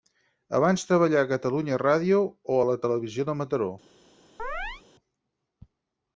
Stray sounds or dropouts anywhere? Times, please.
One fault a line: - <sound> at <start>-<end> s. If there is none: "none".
- chirp at 4.4-4.8 s